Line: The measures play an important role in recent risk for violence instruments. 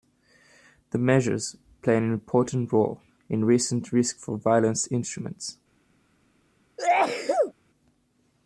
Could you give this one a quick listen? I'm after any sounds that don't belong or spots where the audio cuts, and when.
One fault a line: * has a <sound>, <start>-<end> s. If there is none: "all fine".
* has a sneeze, 6.8-7.5 s